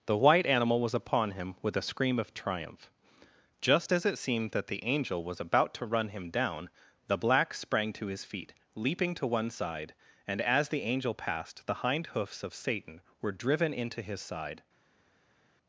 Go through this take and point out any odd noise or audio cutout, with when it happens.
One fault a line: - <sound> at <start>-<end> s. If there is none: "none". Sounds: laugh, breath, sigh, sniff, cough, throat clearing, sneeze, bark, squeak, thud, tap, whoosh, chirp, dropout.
none